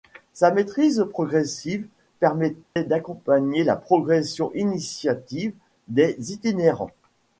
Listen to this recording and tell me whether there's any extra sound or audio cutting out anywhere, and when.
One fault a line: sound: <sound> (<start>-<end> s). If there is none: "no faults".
sound: dropout (2.6-2.8 s)